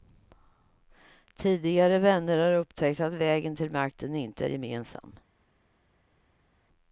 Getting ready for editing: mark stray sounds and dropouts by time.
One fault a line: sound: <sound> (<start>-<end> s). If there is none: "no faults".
no faults